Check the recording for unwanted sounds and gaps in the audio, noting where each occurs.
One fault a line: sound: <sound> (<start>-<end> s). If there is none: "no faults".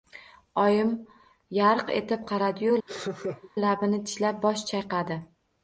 sound: laugh (2.9-3.5 s)